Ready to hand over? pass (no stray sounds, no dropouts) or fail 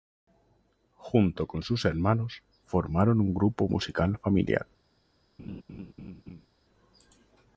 fail